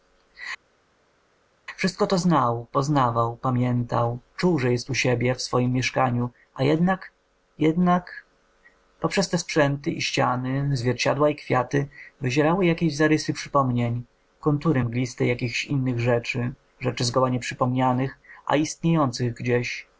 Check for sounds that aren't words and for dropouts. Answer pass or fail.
pass